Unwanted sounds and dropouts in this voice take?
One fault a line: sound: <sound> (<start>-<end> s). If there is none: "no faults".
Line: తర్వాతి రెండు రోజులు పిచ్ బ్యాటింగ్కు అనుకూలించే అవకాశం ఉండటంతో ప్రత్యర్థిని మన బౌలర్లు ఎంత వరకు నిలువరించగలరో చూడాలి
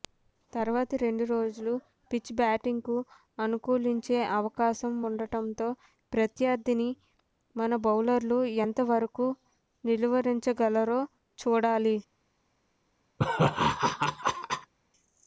sound: laugh (13.2-14.7 s)